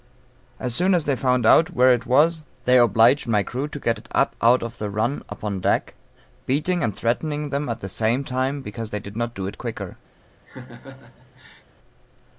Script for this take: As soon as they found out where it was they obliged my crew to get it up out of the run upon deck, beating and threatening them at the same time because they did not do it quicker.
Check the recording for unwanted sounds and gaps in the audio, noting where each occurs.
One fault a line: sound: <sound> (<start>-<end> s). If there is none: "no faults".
sound: laugh (10.5-11.6 s)